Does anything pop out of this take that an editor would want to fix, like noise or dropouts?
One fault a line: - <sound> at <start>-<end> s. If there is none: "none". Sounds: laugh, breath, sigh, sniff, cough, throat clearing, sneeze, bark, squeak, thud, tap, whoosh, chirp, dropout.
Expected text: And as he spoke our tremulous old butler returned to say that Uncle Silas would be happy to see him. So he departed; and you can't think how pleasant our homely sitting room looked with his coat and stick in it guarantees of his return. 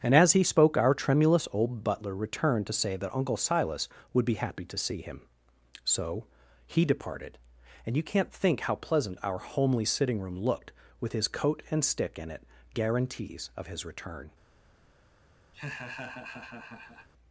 - laugh at 15.5-17.1 s